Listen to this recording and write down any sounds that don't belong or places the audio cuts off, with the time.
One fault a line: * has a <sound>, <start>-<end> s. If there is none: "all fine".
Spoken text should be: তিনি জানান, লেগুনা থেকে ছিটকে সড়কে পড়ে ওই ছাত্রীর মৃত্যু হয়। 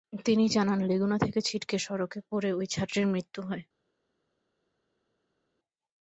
all fine